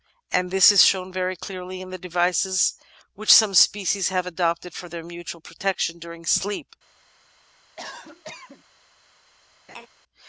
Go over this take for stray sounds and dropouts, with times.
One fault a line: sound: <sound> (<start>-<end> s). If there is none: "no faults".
sound: cough (7.8-8.6 s)
sound: laugh (9.7-9.9 s)